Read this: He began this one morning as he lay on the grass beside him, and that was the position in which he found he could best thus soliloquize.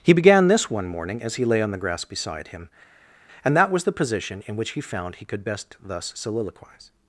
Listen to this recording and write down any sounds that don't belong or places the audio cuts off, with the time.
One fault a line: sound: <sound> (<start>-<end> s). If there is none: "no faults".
no faults